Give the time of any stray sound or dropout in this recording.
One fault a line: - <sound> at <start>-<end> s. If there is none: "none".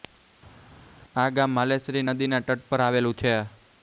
none